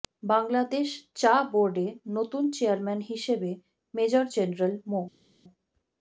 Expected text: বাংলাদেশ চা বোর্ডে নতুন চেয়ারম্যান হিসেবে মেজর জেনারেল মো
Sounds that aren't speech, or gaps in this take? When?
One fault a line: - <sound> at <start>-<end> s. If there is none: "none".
none